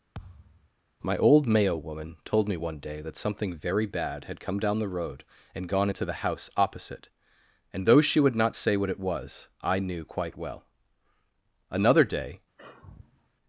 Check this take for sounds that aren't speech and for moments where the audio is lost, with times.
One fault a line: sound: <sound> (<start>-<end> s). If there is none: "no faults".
sound: thud (0.1-0.7 s)
sound: sigh (12.6-13.3 s)